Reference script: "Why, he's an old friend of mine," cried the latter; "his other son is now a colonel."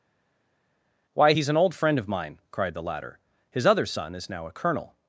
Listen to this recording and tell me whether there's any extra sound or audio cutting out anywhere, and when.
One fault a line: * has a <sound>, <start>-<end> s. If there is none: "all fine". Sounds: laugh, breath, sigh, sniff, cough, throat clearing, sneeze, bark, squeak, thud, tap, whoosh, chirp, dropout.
all fine